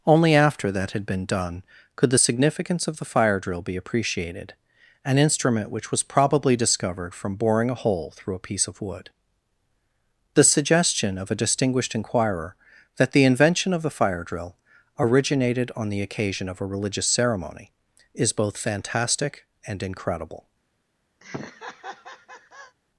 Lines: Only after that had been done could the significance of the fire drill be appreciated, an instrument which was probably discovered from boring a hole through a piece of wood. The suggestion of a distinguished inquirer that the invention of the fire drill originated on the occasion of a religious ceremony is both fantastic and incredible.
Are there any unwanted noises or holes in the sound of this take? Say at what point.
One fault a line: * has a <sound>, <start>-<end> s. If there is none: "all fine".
* has a laugh, 21.2-22.8 s